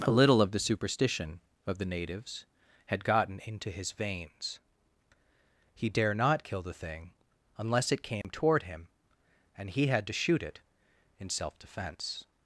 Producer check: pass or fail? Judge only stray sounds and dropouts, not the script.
fail